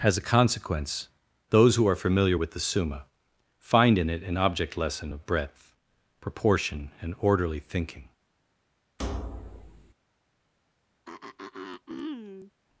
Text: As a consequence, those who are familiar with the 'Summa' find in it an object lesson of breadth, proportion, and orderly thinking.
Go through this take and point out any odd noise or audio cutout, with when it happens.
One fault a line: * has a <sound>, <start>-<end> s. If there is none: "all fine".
* has a thud, 9.0-9.9 s
* has a throat clearing, 11.1-12.5 s